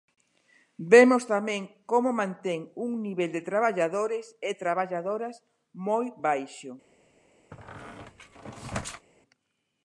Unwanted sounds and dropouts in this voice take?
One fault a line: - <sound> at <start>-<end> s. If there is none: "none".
- squeak at 7.5-9.1 s